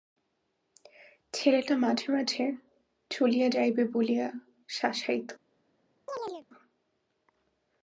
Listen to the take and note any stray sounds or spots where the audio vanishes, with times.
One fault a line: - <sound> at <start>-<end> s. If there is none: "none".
- chirp at 6.1-6.5 s